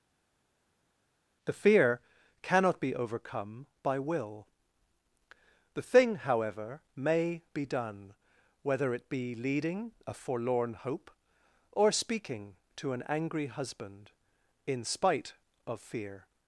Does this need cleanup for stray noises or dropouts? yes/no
no